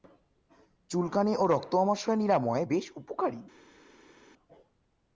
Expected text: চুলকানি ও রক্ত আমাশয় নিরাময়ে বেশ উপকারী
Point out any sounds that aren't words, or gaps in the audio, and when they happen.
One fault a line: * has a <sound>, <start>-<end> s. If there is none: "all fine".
all fine